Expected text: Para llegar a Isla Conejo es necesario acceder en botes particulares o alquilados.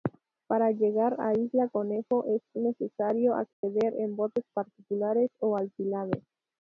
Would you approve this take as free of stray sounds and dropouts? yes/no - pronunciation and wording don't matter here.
no